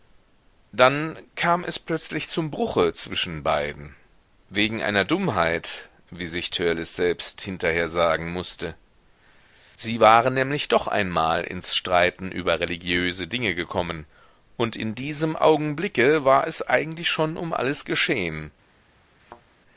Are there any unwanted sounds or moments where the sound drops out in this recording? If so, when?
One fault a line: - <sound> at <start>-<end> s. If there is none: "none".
- thud at 19.2-19.4 s